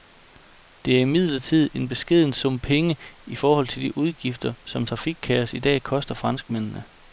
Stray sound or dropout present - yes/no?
no